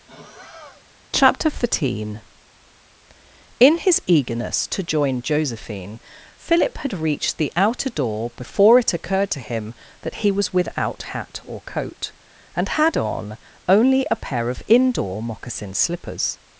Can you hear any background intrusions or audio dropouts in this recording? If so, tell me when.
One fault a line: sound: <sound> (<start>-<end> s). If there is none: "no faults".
sound: sigh (0.1-0.8 s)